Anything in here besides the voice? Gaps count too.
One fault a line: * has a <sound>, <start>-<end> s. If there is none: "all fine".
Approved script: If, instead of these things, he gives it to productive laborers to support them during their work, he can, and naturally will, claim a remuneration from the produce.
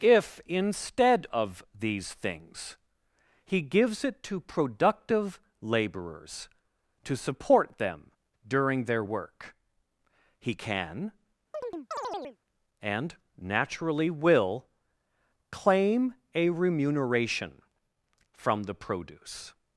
* has a chirp, 11.5-12.4 s